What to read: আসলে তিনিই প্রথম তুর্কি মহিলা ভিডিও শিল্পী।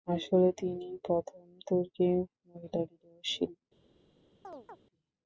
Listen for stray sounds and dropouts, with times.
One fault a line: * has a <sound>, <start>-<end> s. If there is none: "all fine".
* has a chirp, 4.4-4.8 s